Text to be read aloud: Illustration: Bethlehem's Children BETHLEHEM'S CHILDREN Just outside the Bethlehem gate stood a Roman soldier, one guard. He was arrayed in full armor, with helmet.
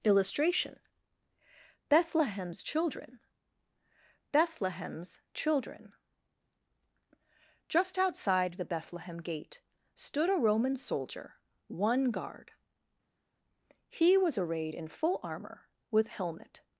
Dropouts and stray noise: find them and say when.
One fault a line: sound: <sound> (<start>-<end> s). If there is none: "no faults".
no faults